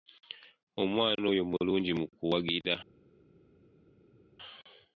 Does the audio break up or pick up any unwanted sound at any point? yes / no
no